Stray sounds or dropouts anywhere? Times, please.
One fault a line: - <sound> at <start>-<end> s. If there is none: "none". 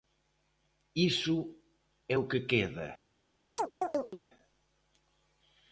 - chirp at 3.6-4.2 s